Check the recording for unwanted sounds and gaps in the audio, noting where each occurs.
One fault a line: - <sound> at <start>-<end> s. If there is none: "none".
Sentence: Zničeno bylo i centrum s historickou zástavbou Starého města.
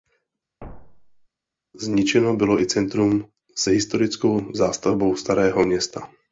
- thud at 0.6-1.3 s